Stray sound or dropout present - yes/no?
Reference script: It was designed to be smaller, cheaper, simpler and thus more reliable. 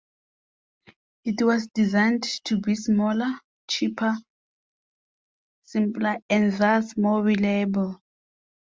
no